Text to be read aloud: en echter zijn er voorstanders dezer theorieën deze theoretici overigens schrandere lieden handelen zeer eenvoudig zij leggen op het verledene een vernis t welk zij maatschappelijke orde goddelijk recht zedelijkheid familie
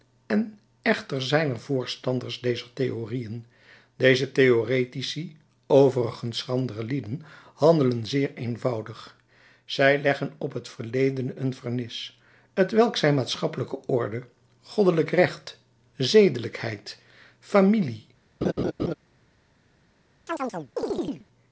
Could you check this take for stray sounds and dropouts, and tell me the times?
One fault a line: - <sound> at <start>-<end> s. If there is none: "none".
- laugh at 18.4-18.9 s
- chirp at 20.3-21.3 s